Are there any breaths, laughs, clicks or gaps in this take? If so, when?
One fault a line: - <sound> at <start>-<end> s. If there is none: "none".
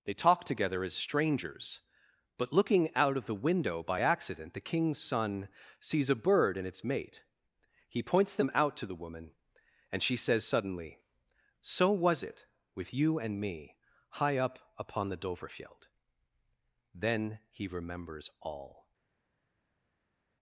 none